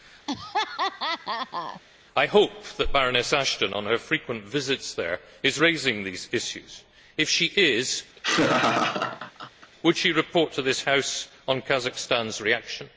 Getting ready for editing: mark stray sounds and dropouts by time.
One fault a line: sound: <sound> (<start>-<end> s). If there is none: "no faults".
sound: laugh (0.3-1.8 s)
sound: laugh (8.2-9.7 s)